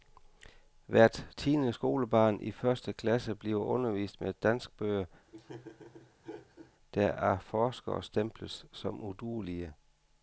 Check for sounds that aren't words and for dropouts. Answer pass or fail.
fail